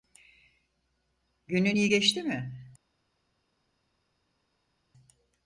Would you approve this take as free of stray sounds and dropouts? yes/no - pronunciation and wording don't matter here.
yes